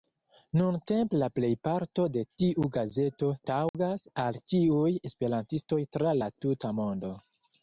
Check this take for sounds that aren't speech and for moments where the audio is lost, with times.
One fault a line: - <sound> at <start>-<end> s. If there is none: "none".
- dropout at 3.7-3.7 s